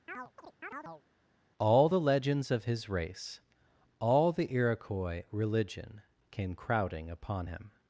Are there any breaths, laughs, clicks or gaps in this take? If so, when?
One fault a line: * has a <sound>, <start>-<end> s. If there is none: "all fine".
* has a chirp, 0.1-1.0 s